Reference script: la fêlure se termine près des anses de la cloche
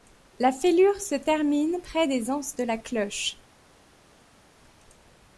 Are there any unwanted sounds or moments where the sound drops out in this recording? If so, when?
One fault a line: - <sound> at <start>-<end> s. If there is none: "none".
none